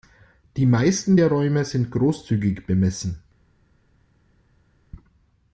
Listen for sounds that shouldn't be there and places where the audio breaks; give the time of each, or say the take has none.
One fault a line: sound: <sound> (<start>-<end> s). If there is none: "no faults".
no faults